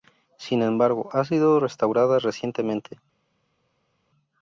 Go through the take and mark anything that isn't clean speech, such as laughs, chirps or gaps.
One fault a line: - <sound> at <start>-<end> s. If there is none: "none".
none